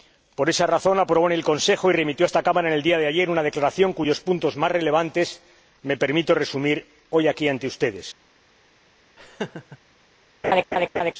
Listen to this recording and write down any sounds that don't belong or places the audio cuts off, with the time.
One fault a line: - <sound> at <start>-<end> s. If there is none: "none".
- laugh at 9.2-9.8 s
- laugh at 10.4-11.1 s